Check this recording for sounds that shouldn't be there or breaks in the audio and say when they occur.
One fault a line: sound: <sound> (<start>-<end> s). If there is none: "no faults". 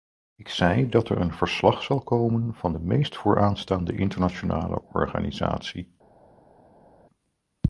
no faults